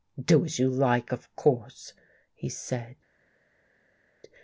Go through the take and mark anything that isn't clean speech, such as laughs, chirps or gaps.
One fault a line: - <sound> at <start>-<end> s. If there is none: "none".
none